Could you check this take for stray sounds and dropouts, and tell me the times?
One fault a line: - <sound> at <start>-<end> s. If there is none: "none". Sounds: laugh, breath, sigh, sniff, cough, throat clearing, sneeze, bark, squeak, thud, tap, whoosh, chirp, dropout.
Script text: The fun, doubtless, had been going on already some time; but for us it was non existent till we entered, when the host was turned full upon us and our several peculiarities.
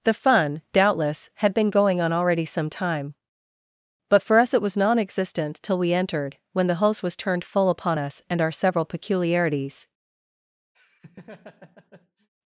- laugh at 10.7-12.3 s